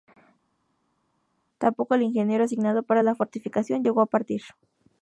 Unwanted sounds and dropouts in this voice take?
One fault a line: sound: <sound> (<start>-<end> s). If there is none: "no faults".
no faults